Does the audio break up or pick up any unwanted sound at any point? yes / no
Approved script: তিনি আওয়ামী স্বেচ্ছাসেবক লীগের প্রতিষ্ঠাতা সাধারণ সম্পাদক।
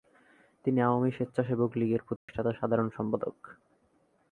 yes